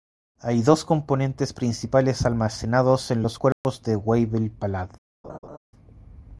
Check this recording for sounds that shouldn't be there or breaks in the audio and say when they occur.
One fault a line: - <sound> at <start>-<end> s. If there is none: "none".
- dropout at 3.5-3.6 s
- laugh at 5.2-5.6 s